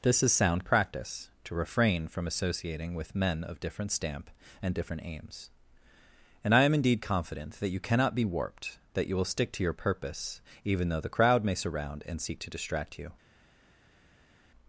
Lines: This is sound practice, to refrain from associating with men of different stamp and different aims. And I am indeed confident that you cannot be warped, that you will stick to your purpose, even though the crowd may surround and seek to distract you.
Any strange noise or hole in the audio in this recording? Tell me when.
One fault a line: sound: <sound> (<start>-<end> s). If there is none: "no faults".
no faults